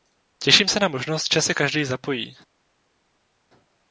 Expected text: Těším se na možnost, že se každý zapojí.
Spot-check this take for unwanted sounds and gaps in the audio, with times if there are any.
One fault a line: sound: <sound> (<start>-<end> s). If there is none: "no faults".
no faults